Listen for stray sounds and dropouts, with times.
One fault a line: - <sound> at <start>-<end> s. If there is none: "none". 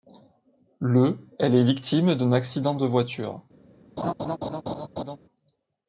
- laugh at 4.0-5.2 s